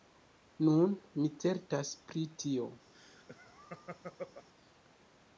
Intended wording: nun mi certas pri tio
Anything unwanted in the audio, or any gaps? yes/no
yes